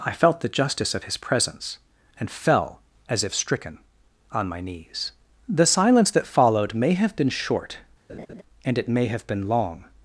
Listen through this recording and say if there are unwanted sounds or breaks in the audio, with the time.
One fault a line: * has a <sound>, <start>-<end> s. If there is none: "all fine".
* has a laugh, 8.1-8.4 s